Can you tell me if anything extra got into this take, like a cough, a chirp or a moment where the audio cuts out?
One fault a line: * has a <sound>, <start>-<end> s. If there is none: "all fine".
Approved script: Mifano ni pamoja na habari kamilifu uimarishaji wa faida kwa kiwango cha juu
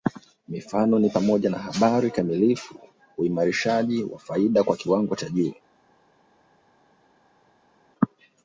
all fine